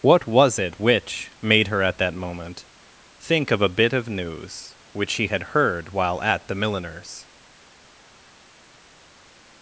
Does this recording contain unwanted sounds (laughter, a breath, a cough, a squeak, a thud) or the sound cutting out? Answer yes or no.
no